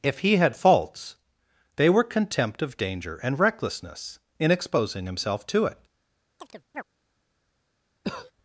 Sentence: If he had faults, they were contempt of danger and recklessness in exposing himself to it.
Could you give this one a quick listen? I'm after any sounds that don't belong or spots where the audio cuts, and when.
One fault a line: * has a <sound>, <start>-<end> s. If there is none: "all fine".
* has a chirp, 6.4-6.8 s
* has a cough, 8.0-8.3 s